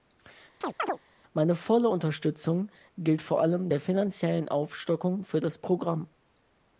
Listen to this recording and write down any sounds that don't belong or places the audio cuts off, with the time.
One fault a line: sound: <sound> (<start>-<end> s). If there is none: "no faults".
sound: chirp (0.6-1.0 s)